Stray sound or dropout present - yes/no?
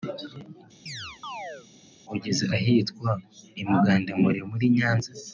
yes